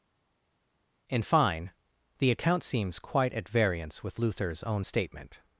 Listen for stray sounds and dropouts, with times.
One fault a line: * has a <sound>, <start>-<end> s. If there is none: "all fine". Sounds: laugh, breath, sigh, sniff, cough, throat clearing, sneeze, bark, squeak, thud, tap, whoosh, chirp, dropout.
all fine